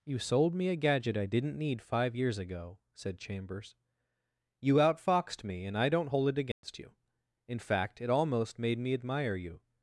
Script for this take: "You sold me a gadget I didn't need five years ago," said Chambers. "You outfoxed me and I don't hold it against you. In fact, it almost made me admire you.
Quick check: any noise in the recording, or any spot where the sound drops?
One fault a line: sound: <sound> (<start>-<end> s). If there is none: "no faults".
sound: dropout (6.5-6.6 s)